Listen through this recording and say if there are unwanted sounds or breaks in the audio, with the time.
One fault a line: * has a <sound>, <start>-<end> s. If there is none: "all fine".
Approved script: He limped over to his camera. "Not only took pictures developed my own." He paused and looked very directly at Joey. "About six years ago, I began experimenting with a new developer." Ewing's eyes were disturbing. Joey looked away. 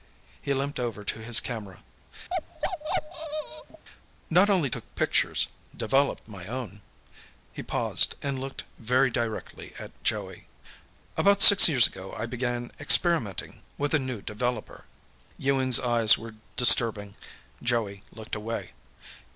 * has a bark, 2.3-3.8 s